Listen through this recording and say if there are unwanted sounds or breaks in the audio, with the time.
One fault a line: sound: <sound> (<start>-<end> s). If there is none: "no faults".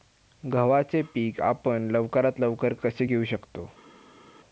no faults